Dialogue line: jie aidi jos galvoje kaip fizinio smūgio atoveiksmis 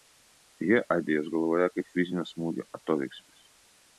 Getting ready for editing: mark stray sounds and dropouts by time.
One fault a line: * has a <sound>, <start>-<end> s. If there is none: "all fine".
all fine